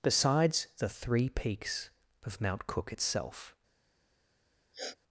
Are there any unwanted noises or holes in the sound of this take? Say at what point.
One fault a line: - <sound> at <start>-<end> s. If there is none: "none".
- sniff at 4.7-5.0 s